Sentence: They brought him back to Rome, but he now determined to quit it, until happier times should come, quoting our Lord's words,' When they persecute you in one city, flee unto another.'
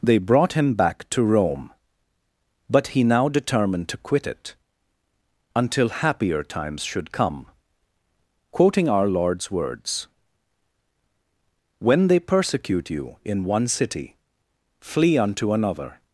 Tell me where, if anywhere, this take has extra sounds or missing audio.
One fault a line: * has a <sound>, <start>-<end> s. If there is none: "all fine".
all fine